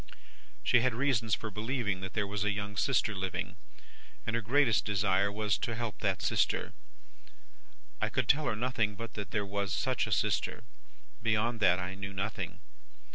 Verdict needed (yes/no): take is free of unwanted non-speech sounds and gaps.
yes